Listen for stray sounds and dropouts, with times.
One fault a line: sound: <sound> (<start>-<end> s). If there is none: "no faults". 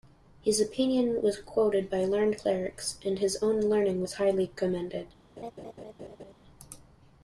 sound: laugh (5.4-6.3 s)